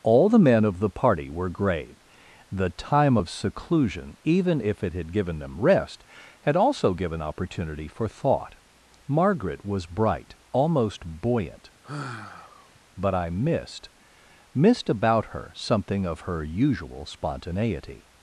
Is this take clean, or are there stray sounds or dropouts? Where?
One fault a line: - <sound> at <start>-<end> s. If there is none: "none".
- sigh at 11.8-12.8 s